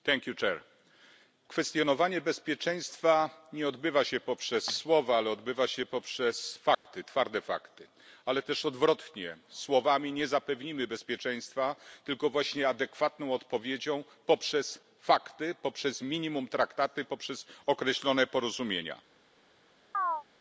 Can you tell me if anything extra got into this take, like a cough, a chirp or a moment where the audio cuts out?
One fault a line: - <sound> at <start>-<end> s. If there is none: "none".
- dropout at 6.7-6.9 s
- chirp at 19.9-20.2 s